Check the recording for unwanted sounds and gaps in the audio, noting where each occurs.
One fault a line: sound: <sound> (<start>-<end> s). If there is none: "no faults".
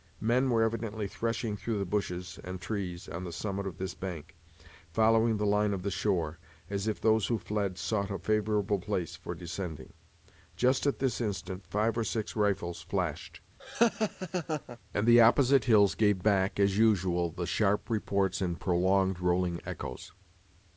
sound: laugh (13.6-14.8 s)